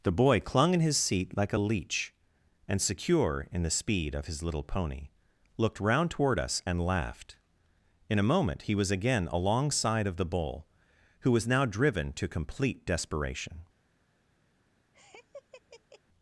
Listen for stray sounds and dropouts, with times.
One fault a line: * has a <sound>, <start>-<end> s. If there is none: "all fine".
* has a laugh, 14.9-16.0 s